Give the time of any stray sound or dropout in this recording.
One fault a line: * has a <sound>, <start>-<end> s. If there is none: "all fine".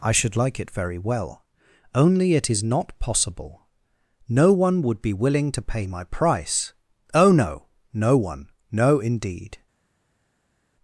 all fine